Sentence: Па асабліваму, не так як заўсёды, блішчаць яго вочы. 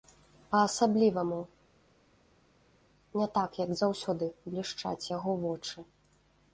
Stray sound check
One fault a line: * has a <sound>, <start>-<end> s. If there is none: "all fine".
all fine